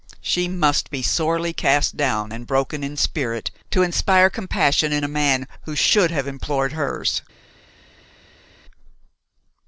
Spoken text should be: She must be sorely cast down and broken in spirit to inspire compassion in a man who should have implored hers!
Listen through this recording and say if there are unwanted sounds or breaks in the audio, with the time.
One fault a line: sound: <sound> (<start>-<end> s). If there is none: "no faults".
no faults